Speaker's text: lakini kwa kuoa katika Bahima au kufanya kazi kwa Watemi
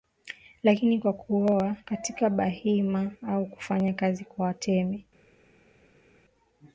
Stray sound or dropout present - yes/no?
no